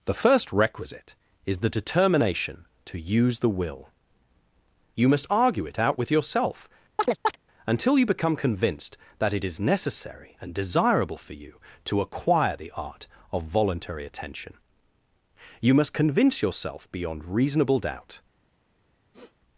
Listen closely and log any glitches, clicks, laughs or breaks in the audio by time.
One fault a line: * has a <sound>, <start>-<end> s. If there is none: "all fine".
* has a chirp, 7.0-7.4 s
* has a sniff, 19.1-19.3 s